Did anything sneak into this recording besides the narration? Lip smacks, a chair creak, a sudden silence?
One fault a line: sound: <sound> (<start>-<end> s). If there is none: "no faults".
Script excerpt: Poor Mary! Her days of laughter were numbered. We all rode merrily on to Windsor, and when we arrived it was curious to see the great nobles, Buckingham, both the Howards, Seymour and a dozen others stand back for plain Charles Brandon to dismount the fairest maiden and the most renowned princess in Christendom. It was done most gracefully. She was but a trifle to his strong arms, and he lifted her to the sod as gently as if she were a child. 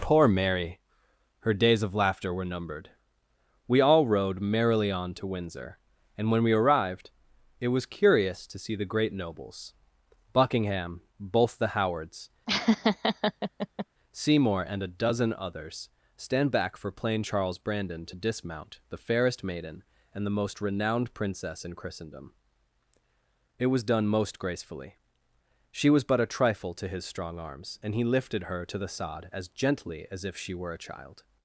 sound: laugh (12.5-13.9 s)